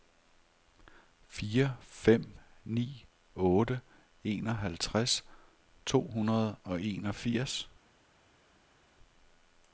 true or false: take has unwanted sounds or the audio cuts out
false